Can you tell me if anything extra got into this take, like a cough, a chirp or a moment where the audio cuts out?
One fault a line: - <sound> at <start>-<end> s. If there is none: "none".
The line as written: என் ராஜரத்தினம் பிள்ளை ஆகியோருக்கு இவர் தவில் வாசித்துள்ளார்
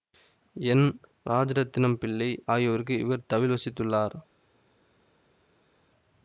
none